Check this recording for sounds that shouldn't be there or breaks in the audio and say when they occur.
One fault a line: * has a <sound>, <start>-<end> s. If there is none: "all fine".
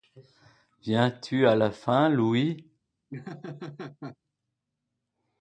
* has a laugh, 3.1-4.2 s